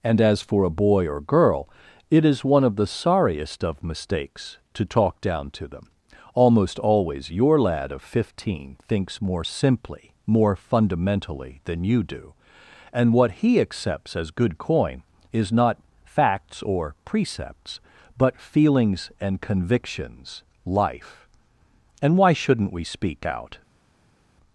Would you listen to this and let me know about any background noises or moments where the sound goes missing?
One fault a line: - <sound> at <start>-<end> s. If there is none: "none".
none